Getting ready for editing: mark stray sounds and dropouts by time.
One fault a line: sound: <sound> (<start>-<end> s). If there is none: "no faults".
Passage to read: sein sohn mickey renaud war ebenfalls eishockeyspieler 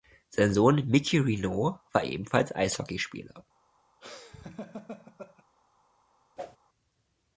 sound: laugh (4.0-5.4 s)
sound: whoosh (6.4-6.6 s)